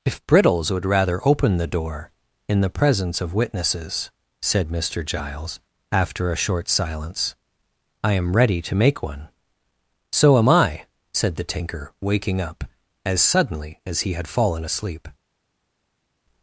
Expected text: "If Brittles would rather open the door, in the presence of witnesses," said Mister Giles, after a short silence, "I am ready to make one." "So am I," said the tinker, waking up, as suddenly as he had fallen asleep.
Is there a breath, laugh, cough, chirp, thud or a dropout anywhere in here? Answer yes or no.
no